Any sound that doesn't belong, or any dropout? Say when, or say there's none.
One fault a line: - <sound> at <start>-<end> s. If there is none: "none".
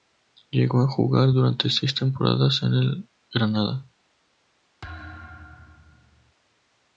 - thud at 4.8-6.3 s